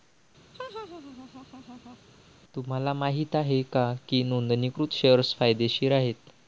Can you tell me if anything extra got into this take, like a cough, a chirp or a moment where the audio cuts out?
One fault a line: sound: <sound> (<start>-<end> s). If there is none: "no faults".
sound: laugh (0.5-2.0 s)